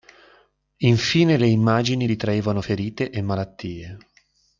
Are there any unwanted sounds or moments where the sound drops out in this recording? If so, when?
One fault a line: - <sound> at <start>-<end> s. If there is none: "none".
none